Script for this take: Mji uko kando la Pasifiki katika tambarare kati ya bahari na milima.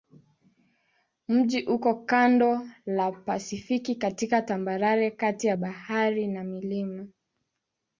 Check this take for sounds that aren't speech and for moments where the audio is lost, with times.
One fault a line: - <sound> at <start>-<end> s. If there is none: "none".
none